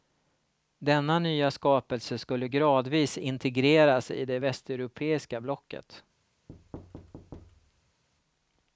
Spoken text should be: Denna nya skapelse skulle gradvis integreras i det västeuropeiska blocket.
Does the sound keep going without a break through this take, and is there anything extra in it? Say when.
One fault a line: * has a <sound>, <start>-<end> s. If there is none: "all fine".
* has a thud, 6.5-8.0 s